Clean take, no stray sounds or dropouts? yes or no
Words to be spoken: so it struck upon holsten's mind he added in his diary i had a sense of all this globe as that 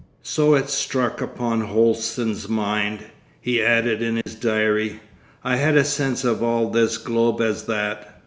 no